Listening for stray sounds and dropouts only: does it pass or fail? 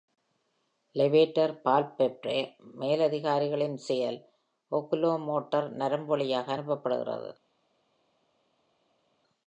pass